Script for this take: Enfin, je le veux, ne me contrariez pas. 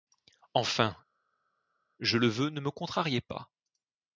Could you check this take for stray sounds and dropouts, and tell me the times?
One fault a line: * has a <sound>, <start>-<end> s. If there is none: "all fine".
all fine